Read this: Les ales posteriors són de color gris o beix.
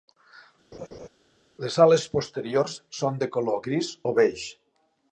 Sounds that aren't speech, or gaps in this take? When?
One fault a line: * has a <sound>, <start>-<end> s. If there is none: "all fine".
* has a laugh, 0.7-1.1 s